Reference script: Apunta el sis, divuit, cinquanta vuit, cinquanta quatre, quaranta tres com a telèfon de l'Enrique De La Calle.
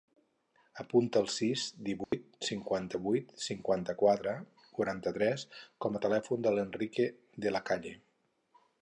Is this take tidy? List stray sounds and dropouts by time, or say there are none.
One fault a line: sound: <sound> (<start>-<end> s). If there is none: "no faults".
sound: dropout (2.0-2.1 s)